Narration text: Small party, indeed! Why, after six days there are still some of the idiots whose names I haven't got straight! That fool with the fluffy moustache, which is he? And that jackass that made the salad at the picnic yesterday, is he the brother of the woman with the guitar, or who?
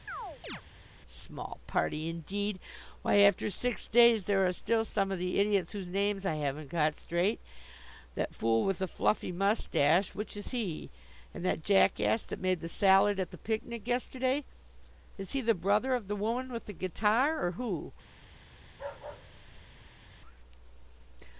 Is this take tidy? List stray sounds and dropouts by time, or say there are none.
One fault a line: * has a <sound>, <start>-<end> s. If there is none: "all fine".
* has a chirp, 0.1-0.6 s
* has a bark, 18.7-20.1 s